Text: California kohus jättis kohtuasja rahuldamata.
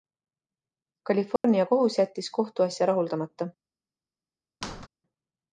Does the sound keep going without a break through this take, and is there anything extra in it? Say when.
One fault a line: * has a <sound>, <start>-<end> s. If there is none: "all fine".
* has a dropout, 1.4-1.4 s
* has a squeak, 4.6-4.9 s